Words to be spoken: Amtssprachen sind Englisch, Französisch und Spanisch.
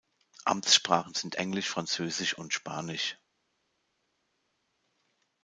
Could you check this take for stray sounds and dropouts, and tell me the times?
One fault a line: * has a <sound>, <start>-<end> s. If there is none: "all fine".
all fine